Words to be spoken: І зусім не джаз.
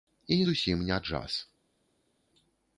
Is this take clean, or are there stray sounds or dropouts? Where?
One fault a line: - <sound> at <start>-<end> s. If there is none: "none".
none